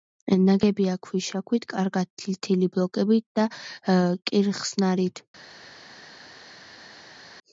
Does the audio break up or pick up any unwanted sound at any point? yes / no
no